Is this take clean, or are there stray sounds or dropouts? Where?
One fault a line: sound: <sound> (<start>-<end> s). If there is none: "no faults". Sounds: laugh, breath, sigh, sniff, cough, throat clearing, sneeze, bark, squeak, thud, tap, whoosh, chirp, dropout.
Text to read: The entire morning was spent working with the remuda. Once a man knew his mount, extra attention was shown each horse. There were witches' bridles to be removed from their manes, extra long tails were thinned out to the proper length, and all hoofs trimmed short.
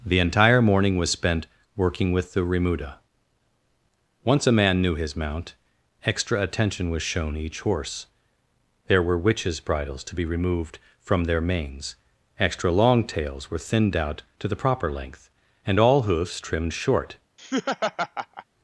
sound: laugh (17.4-18.5 s)